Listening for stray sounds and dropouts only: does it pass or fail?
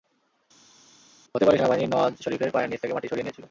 pass